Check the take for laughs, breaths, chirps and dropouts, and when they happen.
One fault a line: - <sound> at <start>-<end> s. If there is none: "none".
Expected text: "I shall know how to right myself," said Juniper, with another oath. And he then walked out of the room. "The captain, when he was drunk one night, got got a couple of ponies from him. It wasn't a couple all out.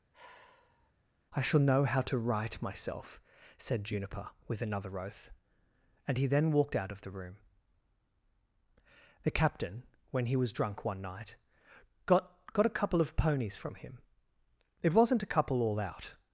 - sigh at 0.1-0.9 s